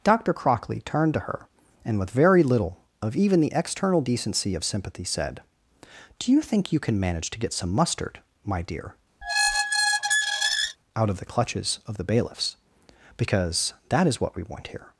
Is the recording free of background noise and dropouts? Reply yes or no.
no